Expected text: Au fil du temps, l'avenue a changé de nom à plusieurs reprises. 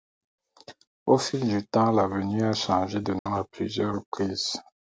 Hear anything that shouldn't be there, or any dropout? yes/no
yes